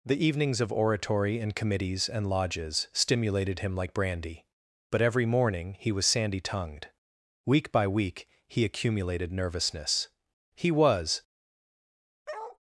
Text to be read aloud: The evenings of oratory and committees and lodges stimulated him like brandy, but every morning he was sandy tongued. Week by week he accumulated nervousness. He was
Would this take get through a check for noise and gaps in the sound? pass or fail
fail